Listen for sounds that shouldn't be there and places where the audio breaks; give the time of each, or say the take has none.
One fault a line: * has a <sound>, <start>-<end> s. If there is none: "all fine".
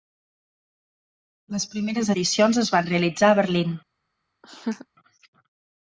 * has a laugh, 4.4-4.9 s